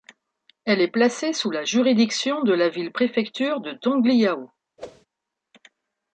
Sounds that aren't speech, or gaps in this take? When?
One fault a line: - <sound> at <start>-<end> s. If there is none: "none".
- whoosh at 4.8-5.1 s